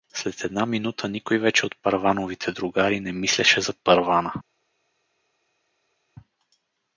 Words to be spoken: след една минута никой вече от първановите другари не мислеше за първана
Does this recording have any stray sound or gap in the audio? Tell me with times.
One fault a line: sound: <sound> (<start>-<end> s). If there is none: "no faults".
no faults